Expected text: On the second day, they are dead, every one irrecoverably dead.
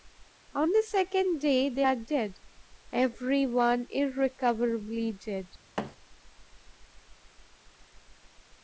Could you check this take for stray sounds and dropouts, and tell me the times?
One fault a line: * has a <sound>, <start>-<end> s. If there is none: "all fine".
* has a thud, 5.8-6.0 s